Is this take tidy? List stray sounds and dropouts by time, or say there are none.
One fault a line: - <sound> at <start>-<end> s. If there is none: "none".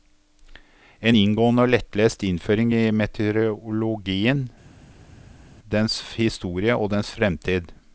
none